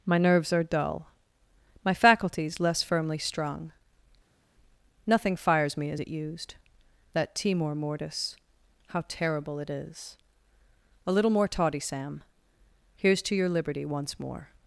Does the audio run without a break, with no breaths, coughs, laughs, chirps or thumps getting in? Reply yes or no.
yes